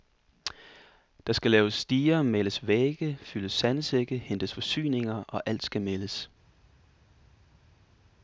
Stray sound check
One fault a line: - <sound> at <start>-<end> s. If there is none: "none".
none